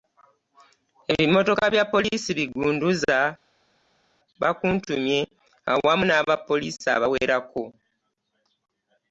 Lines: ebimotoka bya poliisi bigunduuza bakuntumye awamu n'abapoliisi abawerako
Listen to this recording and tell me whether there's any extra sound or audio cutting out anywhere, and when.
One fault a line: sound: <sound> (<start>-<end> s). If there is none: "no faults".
no faults